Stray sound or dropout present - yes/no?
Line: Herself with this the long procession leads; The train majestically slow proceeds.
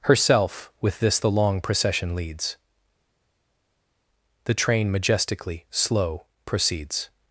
no